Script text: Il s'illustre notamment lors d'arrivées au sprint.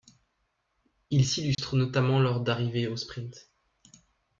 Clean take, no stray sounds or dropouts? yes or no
no